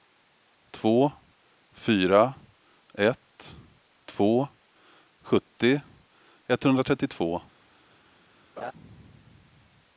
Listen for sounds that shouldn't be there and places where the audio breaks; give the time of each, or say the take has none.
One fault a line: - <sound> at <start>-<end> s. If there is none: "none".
- laugh at 8.6-8.7 s